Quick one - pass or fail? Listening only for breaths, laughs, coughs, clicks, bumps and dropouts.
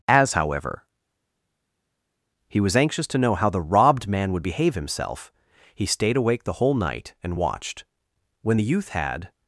pass